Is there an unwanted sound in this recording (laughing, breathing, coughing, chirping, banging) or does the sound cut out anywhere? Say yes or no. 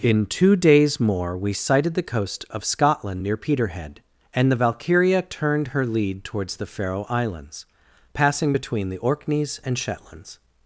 no